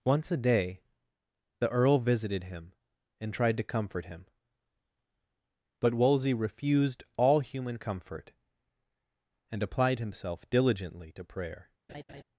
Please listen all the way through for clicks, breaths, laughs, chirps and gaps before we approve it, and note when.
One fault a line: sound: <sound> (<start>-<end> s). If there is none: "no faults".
sound: laugh (11.9-12.2 s)